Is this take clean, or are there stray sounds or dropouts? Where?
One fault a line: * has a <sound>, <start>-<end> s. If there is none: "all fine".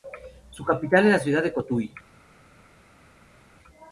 all fine